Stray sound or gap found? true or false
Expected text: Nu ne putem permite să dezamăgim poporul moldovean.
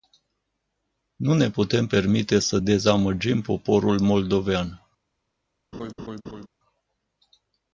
true